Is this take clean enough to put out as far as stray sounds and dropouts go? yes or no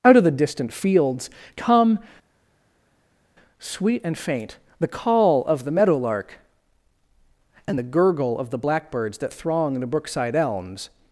yes